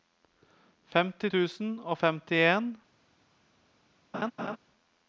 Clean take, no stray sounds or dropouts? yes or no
no